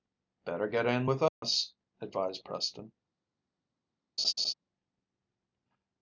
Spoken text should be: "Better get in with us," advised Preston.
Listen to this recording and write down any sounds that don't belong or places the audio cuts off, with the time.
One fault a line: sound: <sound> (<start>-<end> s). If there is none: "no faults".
sound: dropout (1.3-1.4 s)
sound: laugh (4.2-4.5 s)